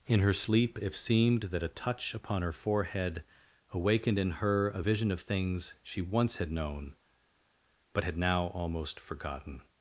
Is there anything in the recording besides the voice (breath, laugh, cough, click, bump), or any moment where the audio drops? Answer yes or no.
no